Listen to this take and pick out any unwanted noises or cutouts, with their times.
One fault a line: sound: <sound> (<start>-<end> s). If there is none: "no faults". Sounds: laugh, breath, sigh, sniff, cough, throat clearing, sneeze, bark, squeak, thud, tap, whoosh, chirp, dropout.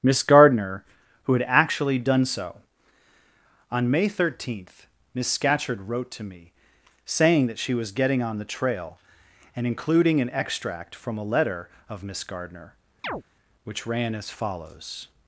sound: chirp (13.0-13.2 s)